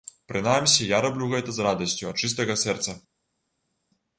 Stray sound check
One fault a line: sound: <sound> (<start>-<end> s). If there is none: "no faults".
no faults